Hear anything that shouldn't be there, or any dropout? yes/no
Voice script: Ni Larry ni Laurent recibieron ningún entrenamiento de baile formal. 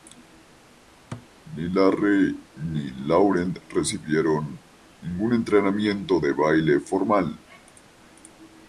yes